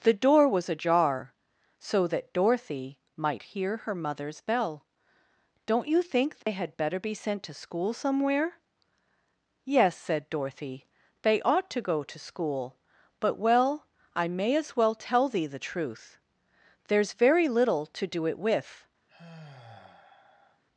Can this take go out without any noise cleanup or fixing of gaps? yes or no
no